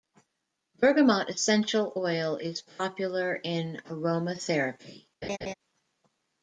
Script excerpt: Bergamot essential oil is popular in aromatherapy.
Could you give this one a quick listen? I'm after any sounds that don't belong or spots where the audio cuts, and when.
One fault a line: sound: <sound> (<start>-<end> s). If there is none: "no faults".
sound: laugh (5.2-5.5 s)